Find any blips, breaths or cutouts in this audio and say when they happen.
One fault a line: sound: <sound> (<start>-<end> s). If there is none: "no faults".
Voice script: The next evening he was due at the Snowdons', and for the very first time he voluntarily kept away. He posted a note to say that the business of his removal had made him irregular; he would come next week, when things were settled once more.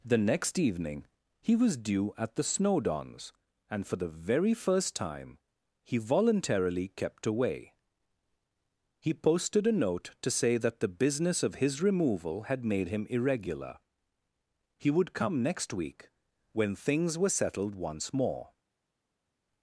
no faults